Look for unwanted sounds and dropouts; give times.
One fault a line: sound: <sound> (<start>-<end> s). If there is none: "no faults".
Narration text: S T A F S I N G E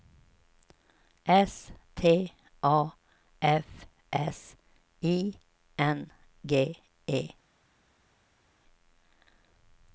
no faults